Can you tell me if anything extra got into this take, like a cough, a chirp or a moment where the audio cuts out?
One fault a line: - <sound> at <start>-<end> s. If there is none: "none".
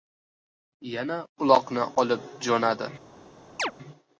- chirp at 3.6-3.7 s